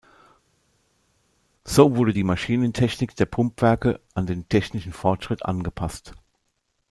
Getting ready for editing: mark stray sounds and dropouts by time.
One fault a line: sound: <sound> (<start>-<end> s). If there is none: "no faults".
no faults